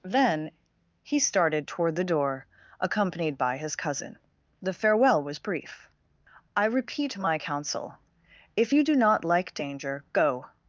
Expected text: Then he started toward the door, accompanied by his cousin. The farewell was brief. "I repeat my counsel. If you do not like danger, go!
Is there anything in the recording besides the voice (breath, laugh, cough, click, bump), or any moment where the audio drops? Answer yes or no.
no